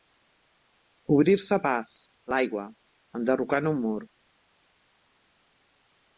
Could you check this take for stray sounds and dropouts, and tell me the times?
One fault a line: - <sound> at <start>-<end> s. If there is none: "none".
none